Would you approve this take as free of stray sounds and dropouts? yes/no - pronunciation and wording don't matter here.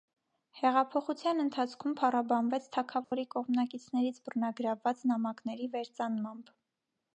no